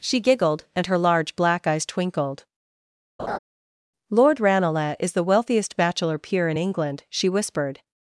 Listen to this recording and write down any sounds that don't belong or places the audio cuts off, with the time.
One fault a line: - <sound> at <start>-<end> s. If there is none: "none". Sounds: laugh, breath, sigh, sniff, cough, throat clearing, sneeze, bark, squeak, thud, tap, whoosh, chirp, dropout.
- laugh at 3.2-3.4 s